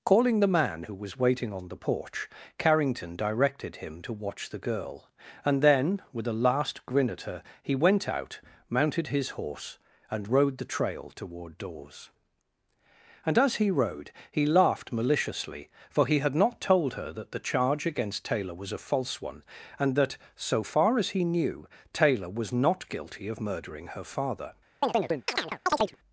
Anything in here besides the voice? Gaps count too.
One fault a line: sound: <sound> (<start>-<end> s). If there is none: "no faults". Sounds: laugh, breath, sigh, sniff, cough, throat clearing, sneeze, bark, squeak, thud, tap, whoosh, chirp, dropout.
sound: chirp (24.8-26.0 s)